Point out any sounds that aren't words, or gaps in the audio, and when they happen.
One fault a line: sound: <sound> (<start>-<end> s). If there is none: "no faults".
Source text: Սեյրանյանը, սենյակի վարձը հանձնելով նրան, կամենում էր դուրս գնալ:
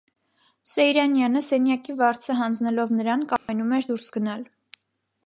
sound: dropout (3.4-3.5 s)